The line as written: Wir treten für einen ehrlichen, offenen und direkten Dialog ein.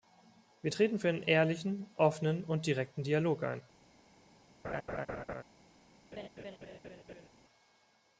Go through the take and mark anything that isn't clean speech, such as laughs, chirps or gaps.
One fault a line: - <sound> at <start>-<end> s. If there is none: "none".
- laugh at 4.6-5.4 s
- laugh at 6.1-7.3 s